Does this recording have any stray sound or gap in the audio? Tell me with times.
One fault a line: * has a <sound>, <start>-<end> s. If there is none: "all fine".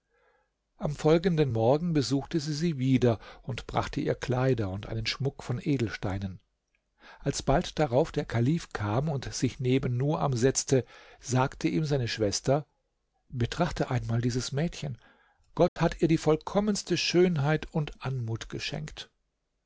* has a dropout, 15.7-15.8 s